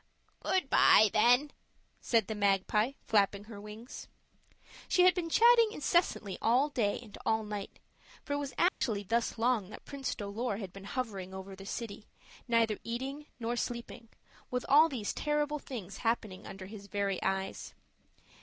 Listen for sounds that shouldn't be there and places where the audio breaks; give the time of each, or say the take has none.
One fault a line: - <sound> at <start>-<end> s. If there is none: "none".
- dropout at 8.7-8.8 s